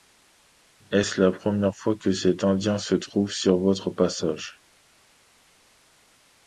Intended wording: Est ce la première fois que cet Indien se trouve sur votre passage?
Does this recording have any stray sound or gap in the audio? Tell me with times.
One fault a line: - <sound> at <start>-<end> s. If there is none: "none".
none